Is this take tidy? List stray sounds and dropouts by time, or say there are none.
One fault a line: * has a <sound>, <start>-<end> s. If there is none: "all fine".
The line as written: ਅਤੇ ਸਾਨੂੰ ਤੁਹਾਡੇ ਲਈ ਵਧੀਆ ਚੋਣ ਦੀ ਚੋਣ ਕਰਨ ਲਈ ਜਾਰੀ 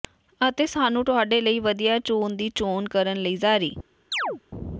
* has a chirp, 4.1-4.4 s